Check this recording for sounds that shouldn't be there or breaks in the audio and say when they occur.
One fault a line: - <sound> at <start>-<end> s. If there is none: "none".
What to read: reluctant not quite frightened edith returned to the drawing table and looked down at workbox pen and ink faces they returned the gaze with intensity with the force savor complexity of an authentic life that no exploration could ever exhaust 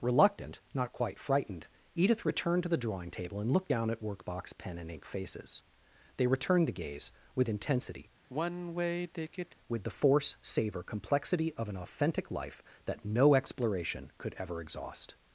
- sigh at 8.3-9.6 s